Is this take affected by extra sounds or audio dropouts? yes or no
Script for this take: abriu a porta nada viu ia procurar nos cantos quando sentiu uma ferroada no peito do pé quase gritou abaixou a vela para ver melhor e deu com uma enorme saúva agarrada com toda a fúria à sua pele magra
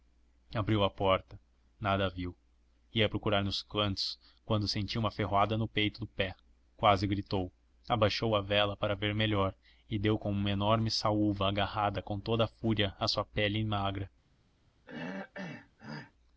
yes